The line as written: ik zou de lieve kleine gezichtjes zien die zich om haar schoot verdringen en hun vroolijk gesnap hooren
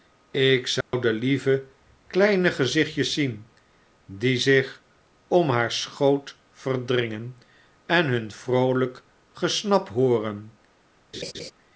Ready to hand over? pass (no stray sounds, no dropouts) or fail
fail